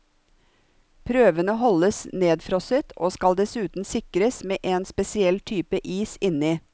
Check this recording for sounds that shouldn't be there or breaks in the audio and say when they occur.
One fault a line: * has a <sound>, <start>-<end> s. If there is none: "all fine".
all fine